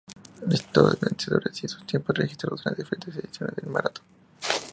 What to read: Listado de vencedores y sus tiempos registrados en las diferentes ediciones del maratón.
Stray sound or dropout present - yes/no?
no